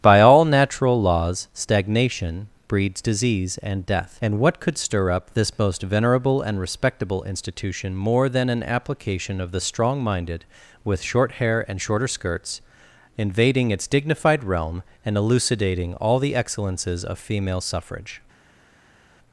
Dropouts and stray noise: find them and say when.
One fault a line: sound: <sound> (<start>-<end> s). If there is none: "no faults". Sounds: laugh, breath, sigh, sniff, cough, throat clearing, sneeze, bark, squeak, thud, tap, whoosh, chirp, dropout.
no faults